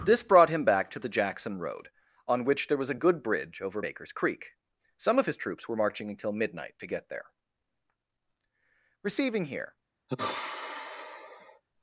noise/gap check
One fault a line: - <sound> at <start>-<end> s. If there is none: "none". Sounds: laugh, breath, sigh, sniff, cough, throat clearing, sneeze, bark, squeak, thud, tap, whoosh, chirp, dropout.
- sigh at 10.1-11.6 s